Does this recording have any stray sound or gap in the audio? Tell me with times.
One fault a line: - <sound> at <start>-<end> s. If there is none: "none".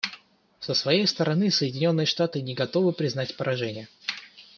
none